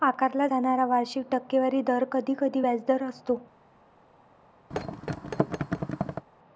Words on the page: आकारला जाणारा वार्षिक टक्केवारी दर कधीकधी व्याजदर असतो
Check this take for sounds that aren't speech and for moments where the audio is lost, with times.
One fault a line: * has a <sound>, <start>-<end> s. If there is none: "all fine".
* has a thud, 4.7-6.3 s